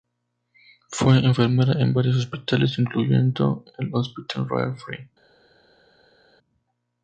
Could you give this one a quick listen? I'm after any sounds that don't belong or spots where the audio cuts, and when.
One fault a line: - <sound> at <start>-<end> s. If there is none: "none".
none